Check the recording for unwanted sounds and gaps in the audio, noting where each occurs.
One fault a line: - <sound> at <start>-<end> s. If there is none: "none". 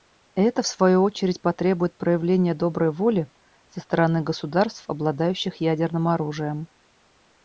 none